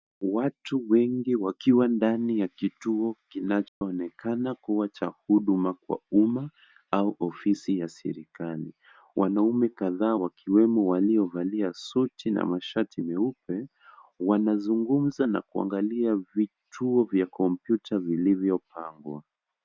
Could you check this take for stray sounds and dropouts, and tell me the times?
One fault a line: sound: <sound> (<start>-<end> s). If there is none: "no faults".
sound: dropout (3.7-3.8 s)